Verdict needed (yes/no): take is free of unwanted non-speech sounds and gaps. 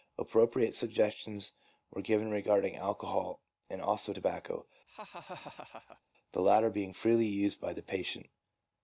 no